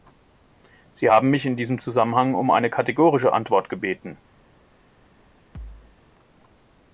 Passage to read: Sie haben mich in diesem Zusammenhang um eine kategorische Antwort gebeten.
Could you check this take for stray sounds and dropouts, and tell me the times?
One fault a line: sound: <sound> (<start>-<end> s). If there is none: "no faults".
sound: thud (5.5-6.0 s)